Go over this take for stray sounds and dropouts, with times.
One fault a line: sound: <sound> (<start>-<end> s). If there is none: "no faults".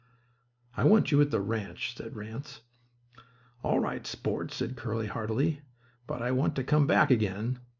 no faults